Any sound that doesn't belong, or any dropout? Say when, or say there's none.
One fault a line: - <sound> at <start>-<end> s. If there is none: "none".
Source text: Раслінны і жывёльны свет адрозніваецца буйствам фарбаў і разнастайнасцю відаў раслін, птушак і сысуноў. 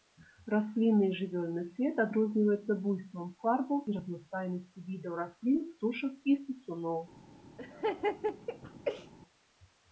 - laugh at 7.6-9.1 s